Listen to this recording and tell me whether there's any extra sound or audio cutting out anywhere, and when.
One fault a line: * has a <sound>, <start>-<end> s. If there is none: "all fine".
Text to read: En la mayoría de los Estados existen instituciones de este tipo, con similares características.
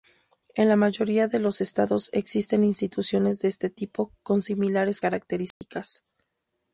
* has a dropout, 5.5-5.6 s